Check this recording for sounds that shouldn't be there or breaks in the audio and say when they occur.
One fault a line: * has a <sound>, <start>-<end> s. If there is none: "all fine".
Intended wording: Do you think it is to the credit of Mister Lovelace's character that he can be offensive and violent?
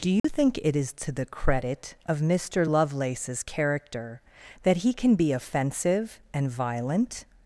* has a dropout, 0.2-0.2 s